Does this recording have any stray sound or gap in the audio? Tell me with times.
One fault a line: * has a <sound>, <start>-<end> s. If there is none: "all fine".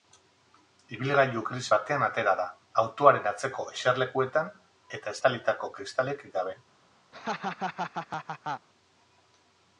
* has a laugh, 7.1-8.7 s